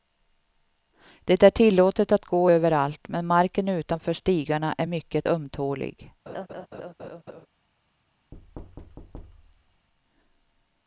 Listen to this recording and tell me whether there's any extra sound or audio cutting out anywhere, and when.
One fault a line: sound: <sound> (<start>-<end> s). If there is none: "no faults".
sound: laugh (6.3-7.5 s)
sound: thud (8.3-9.9 s)